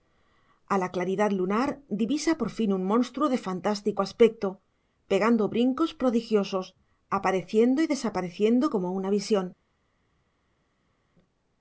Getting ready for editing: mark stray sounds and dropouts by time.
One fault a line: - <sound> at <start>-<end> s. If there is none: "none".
none